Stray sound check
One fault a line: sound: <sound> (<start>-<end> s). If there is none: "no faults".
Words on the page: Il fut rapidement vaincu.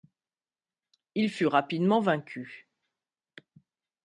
no faults